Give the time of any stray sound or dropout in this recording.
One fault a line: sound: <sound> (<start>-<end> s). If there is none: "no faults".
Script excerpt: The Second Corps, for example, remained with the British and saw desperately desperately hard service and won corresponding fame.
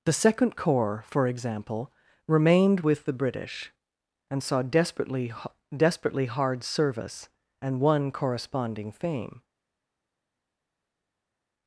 no faults